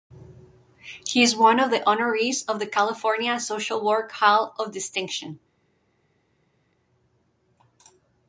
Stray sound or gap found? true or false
false